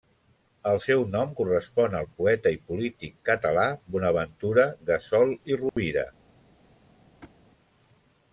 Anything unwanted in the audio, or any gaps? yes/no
yes